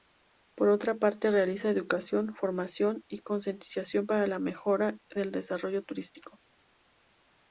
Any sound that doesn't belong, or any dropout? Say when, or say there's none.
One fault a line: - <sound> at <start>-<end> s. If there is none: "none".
none